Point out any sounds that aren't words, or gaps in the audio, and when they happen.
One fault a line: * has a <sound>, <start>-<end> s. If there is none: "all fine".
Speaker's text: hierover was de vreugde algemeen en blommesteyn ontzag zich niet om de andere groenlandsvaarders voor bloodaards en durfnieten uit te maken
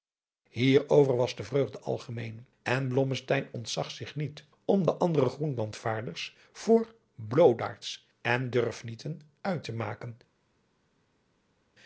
all fine